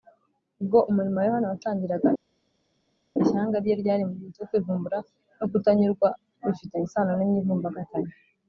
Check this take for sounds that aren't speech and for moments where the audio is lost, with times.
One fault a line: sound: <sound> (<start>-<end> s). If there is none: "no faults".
no faults